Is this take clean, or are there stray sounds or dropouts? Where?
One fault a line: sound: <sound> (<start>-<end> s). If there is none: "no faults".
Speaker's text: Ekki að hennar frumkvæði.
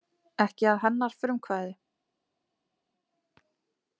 no faults